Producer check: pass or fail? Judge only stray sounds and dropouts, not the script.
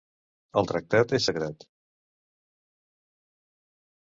pass